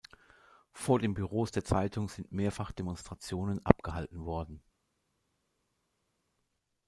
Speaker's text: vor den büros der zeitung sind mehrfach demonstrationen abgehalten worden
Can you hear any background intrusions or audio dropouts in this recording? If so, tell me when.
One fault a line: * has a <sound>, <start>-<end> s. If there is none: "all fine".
all fine